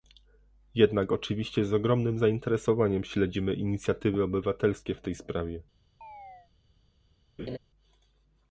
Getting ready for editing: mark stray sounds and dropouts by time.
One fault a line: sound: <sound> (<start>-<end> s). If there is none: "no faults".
sound: chirp (6.0-6.5 s)
sound: laugh (7.4-7.6 s)